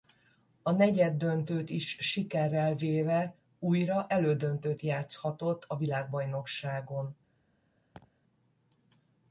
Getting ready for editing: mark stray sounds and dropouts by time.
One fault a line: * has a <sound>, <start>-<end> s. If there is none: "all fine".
* has a laugh, 7.9-8.1 s